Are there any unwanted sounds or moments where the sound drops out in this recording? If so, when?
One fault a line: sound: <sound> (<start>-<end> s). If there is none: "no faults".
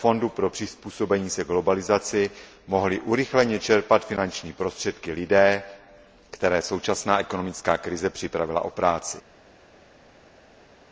no faults